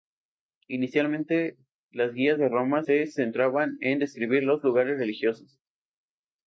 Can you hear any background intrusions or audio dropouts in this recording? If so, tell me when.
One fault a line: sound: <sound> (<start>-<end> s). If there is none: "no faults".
no faults